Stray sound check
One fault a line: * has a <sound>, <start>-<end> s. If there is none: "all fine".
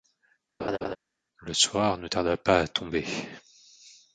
* has a laugh, 0.6-1.0 s